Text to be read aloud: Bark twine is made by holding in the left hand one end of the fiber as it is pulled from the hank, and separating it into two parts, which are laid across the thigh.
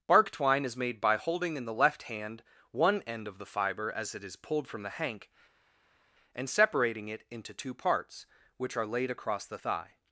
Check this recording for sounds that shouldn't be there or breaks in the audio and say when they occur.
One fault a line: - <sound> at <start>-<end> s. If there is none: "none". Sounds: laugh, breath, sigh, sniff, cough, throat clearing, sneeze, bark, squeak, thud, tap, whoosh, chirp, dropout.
none